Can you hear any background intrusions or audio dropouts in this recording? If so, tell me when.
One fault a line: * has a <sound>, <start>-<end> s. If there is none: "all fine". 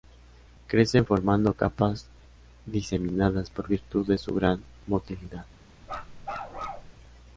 * has a bark, 5.8-6.9 s